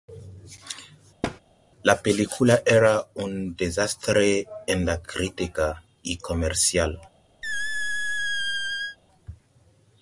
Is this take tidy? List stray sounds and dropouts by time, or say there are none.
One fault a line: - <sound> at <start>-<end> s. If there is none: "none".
- thud at 1.2-1.4 s
- squeak at 7.4-9.0 s